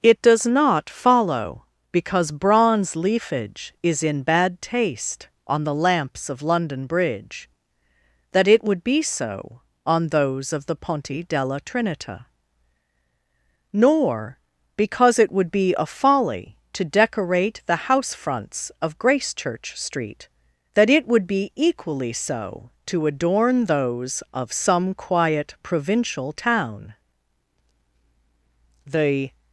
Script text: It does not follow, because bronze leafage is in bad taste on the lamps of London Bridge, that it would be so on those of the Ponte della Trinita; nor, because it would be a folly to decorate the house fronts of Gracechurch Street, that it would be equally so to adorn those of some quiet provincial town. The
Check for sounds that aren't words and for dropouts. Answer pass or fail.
pass